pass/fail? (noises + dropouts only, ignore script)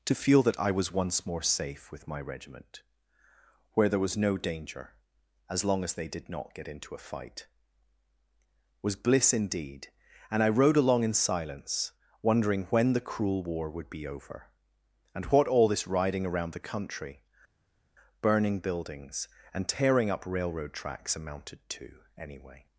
pass